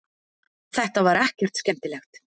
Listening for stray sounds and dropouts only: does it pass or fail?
pass